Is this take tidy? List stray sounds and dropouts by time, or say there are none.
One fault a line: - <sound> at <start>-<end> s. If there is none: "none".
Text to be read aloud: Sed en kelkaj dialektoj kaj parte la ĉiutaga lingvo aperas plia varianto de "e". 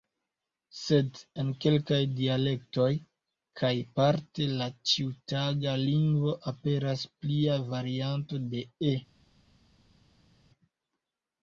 none